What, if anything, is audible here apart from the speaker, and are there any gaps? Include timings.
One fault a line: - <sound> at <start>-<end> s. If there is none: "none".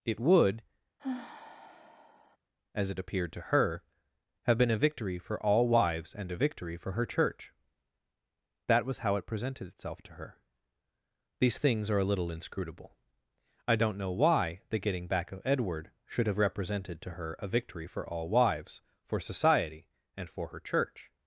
- sigh at 1.0-2.4 s